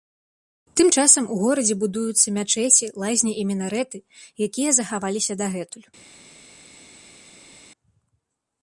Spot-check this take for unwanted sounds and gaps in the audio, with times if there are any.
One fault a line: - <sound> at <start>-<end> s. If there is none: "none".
none